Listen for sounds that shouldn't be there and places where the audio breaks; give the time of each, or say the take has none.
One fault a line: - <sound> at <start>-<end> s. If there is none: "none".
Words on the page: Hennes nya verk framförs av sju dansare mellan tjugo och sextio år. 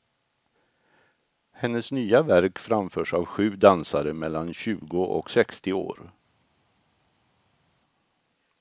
none